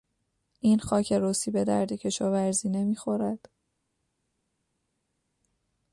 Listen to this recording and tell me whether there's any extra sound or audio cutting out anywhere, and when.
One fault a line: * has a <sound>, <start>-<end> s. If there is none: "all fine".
all fine